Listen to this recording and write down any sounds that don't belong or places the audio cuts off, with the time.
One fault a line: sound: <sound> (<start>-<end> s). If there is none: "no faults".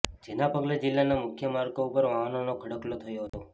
sound: dropout (3.3-3.3 s)